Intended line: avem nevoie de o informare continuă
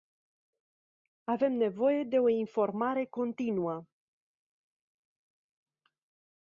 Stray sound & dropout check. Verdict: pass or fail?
pass